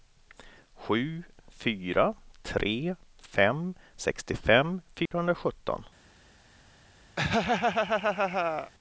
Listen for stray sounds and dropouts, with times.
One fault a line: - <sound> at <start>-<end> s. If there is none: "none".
- dropout at 5.1-5.1 s
- laugh at 7.2-8.7 s